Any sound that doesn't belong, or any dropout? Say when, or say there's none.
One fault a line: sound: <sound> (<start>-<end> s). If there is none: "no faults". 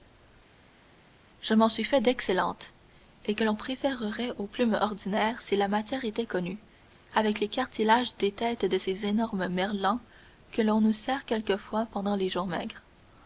no faults